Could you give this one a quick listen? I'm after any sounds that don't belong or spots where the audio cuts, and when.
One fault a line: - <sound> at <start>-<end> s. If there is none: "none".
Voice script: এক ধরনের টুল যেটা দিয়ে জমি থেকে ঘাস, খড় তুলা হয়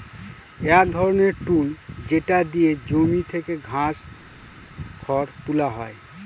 none